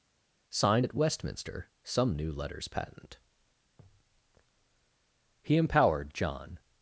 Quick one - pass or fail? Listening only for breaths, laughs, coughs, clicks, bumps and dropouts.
pass